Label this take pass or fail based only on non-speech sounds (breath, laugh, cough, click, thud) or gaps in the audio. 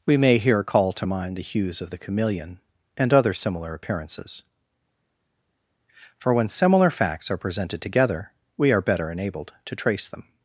pass